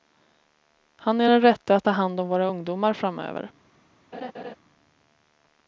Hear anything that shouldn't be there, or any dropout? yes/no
yes